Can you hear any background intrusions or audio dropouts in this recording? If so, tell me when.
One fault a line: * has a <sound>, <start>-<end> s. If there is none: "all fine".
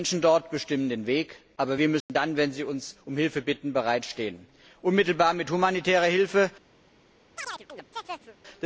* has a dropout, 2.0-2.1 s
* has a chirp, 7.4-8.4 s